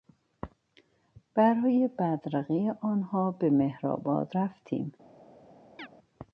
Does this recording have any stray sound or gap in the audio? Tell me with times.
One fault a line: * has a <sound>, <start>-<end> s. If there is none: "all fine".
* has a chirp, 5.8-5.9 s